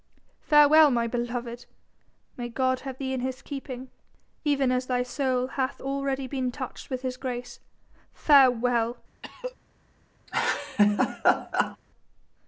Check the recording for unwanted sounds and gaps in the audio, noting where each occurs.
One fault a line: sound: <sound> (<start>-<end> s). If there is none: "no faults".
sound: cough (9.2-9.6 s)
sound: laugh (10.3-11.8 s)